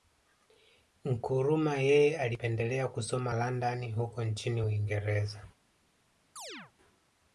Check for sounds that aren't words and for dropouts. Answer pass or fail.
fail